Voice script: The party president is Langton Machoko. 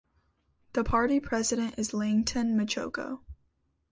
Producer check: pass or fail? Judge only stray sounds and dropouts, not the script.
pass